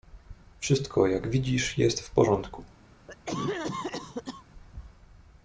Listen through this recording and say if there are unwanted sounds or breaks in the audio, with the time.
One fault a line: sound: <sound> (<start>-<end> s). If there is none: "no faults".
sound: cough (3.1-4.4 s)